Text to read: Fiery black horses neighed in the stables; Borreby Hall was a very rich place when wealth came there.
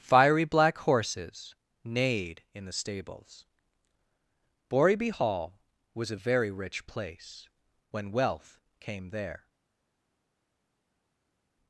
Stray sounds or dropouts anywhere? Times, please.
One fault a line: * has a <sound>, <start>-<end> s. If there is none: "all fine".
all fine